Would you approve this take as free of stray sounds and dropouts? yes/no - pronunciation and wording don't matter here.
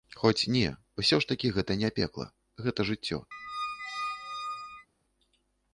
no